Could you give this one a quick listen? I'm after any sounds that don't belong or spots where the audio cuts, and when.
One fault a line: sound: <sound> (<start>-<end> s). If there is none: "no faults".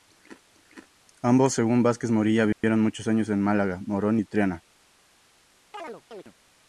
sound: dropout (2.5-2.6 s)
sound: chirp (5.7-6.3 s)